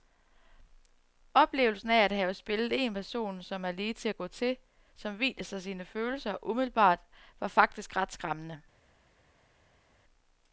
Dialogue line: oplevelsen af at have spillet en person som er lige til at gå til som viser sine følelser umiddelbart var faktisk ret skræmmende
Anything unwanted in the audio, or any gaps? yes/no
no